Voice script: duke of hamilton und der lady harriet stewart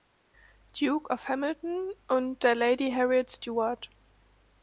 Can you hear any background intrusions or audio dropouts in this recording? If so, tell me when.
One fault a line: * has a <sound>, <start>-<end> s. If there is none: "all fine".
all fine